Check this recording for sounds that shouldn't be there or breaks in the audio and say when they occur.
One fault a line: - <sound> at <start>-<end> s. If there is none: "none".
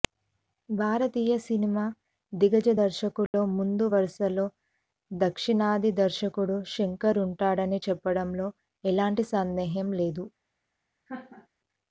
- dropout at 3.3-3.3 s
- laugh at 11.1-11.5 s